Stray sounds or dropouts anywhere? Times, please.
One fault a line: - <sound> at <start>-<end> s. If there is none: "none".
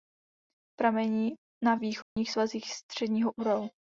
- dropout at 2.0-2.2 s